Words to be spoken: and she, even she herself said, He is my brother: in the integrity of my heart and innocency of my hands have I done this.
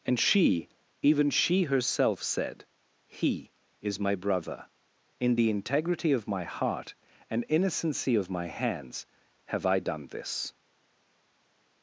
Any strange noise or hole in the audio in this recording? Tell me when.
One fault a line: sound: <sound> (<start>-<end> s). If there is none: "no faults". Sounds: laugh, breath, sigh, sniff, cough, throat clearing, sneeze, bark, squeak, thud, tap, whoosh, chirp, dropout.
no faults